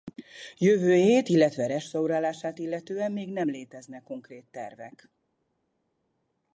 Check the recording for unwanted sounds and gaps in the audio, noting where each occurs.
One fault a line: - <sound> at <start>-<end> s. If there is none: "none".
none